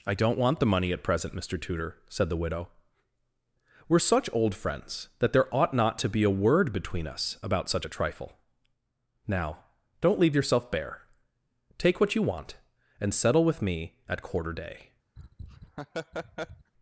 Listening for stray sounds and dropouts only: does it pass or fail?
fail